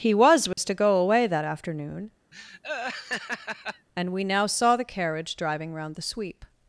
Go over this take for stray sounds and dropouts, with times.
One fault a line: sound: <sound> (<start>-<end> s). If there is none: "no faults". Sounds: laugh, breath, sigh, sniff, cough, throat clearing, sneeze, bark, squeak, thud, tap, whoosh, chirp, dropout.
sound: dropout (0.5-0.6 s)
sound: laugh (2.3-3.9 s)